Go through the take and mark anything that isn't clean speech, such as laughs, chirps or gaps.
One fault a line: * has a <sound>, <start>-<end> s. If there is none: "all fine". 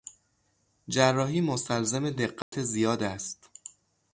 * has a dropout, 2.4-2.5 s